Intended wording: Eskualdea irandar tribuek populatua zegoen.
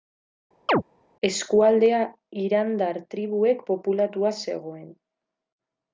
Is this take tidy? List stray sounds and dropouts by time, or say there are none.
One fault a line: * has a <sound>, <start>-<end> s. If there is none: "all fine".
* has a chirp, 0.7-0.8 s